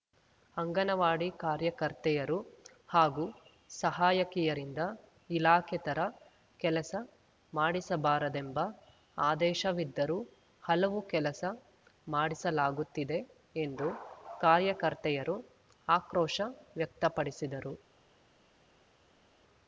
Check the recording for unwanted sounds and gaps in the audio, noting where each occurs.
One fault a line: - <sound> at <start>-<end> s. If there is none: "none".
none